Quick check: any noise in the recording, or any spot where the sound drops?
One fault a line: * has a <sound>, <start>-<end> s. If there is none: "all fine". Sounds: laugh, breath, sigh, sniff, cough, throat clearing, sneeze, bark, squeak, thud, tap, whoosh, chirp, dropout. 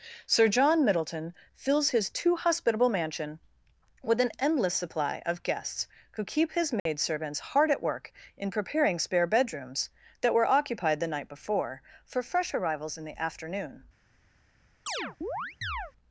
* has a dropout, 6.8-6.9 s
* has a chirp, 14.9-15.9 s